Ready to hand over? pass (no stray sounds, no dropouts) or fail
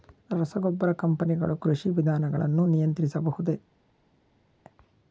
pass